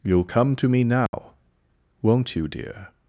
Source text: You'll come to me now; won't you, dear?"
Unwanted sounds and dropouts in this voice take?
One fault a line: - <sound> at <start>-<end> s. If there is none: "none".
- dropout at 1.1-1.1 s